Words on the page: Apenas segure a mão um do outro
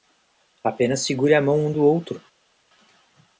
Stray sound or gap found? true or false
false